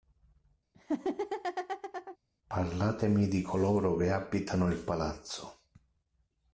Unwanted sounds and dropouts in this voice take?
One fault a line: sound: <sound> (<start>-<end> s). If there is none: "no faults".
sound: laugh (0.7-2.2 s)